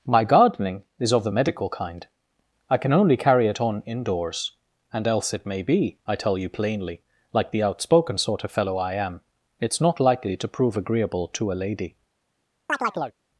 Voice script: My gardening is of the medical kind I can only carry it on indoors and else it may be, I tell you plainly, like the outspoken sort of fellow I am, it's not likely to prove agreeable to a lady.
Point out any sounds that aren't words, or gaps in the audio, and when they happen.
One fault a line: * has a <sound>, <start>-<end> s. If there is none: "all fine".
* has a chirp, 12.7-13.2 s